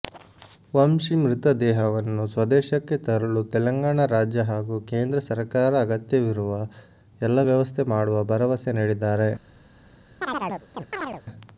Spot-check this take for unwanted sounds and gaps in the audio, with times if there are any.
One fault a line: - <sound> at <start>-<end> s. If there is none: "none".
- chirp at 10.2-11.2 s